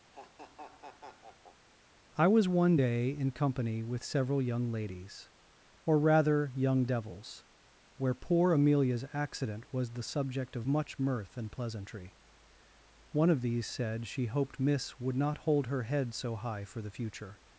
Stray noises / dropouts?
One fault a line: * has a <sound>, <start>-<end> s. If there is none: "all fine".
* has a laugh, 0.1-1.7 s